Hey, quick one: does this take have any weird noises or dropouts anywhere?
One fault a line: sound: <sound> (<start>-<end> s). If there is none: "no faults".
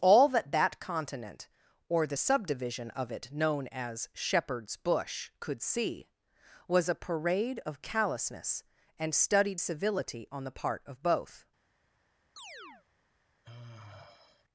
sound: chirp (12.4-12.9 s)
sound: sigh (13.4-14.4 s)